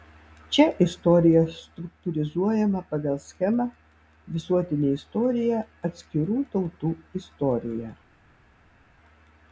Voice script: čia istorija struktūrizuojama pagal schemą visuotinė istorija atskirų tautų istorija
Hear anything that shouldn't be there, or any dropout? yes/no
no